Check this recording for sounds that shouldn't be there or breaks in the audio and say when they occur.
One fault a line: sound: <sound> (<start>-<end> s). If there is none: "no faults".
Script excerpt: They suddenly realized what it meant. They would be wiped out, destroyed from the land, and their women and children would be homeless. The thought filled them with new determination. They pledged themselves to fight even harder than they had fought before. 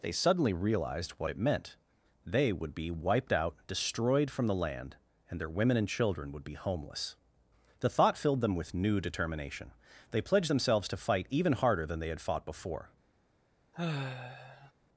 sound: sigh (13.7-14.7 s)